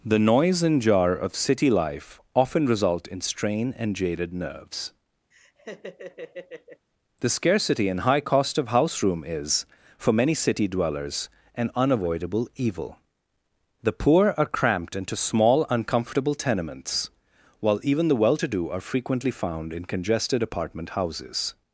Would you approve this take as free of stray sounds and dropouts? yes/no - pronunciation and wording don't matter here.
no